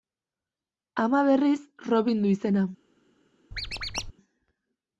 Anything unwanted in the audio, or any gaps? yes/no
yes